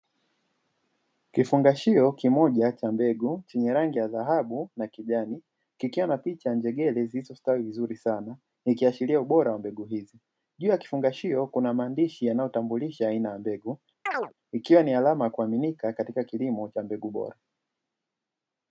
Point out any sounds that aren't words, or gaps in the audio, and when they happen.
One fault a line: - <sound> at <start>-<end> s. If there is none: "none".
- chirp at 14.1-14.3 s